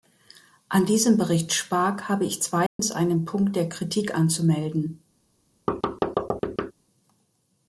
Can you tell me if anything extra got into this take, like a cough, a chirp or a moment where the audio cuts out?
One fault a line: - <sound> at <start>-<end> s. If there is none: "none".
- dropout at 2.7-2.8 s
- thud at 5.7-6.7 s